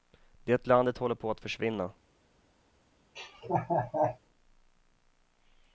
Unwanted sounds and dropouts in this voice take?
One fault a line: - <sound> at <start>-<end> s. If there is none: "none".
- laugh at 3.2-4.2 s